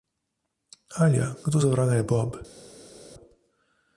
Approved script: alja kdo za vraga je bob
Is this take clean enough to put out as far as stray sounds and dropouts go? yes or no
yes